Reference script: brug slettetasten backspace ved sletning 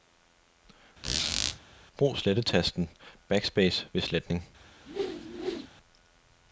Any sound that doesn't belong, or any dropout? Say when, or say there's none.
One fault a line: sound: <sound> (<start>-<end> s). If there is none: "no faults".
sound: squeak (1.0-1.6 s)
sound: whoosh (4.9-5.7 s)